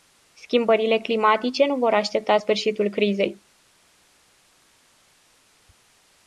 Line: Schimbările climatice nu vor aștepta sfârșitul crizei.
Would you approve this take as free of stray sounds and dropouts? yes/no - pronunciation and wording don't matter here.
yes